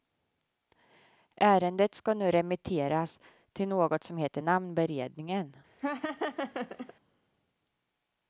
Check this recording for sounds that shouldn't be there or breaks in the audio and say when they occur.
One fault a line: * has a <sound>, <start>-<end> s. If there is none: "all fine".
* has a laugh, 5.8-6.9 s